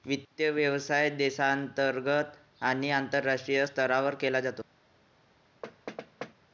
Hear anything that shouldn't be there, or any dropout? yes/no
yes